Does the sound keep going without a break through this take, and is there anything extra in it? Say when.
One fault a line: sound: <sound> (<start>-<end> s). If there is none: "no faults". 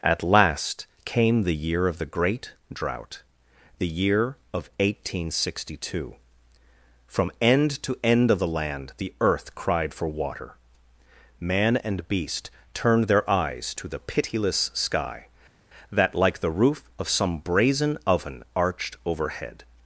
no faults